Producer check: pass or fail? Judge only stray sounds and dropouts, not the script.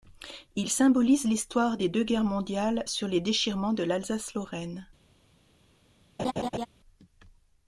fail